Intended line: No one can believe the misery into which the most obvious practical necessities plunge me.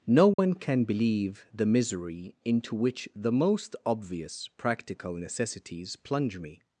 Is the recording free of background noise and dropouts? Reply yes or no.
no